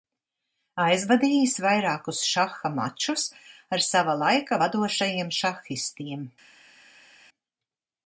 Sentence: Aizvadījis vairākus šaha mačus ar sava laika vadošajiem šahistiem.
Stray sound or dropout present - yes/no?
no